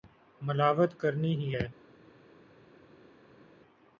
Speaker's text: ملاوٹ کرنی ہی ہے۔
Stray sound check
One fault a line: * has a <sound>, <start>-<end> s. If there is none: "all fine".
all fine